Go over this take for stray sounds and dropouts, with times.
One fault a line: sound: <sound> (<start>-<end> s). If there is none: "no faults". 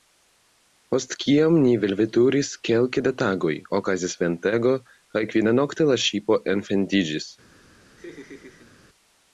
sound: laugh (8.0-8.7 s)